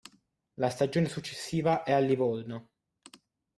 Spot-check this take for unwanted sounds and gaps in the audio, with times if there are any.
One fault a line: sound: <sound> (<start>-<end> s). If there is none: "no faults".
no faults